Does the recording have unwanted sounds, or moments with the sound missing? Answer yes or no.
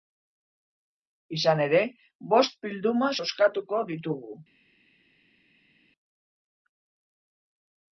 no